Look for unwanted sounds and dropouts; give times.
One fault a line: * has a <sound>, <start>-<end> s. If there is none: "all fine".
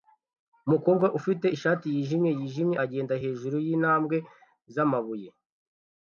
all fine